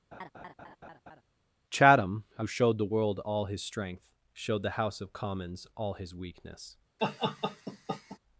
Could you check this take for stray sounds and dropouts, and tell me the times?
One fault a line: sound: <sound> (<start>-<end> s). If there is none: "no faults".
sound: laugh (0.1-1.2 s)
sound: laugh (7.0-8.2 s)